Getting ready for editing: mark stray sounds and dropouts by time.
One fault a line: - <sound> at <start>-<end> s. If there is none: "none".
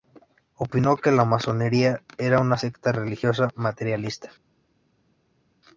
none